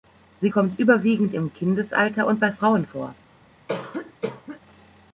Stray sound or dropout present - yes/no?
yes